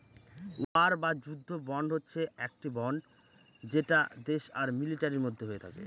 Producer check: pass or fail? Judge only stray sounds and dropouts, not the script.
fail